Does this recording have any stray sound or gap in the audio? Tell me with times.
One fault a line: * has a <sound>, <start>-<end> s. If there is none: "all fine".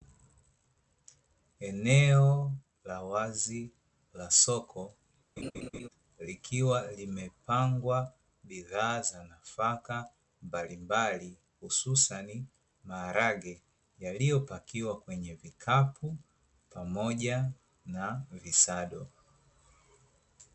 * has a laugh, 5.4-5.9 s